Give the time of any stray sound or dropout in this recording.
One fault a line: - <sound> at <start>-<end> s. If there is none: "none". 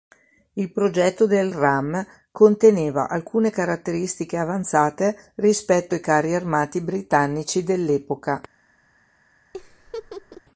- laugh at 9.5-10.4 s